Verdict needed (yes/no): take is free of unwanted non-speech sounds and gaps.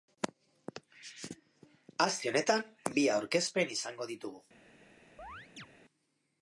no